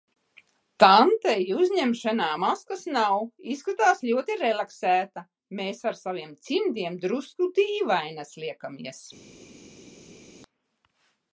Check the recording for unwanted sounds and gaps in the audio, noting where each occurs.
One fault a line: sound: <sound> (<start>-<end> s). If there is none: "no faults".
no faults